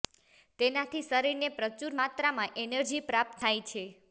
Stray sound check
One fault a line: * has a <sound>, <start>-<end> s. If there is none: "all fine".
all fine